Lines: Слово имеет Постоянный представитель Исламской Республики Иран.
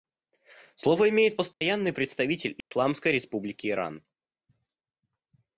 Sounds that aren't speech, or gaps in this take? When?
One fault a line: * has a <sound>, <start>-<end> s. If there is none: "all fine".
* has a dropout, 1.5-1.6 s
* has a dropout, 2.6-2.7 s